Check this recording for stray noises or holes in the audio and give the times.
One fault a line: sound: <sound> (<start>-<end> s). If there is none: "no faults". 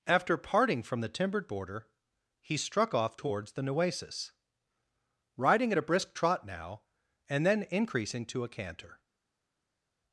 no faults